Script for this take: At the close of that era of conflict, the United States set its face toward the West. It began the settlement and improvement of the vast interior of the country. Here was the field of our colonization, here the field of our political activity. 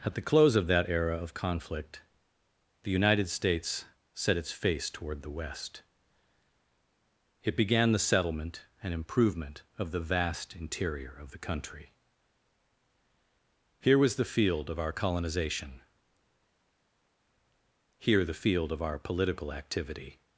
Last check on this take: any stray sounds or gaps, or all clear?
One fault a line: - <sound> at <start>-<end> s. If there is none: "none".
none